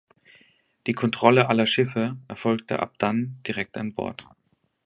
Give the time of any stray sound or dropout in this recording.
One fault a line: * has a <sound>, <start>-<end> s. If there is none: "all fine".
all fine